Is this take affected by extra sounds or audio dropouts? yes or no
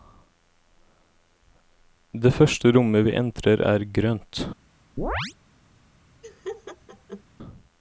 yes